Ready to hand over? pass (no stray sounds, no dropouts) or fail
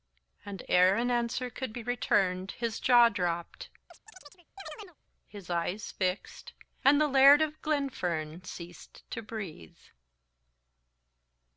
fail